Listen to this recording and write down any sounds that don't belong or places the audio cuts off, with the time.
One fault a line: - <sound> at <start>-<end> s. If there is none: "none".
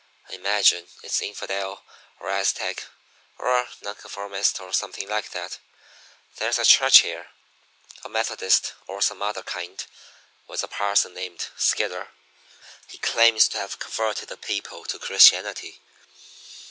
none